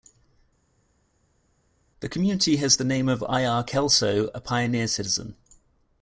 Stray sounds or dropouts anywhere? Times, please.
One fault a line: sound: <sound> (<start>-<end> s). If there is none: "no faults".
no faults